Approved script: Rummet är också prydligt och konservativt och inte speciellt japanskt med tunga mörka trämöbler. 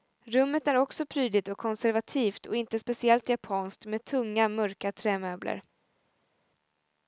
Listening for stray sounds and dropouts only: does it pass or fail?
pass